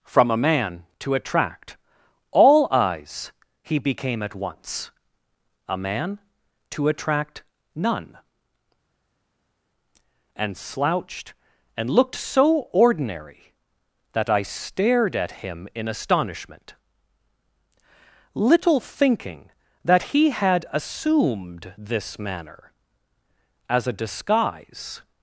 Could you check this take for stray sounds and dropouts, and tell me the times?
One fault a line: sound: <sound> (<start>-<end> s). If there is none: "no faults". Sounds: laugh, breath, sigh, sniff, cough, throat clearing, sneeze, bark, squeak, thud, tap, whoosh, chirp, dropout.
no faults